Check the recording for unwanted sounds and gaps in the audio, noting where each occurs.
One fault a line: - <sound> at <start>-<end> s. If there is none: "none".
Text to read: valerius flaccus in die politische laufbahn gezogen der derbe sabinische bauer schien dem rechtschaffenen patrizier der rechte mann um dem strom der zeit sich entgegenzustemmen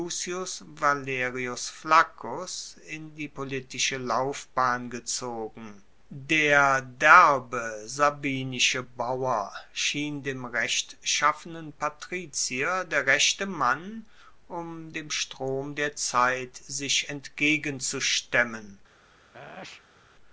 - sneeze at 19.3-20.1 s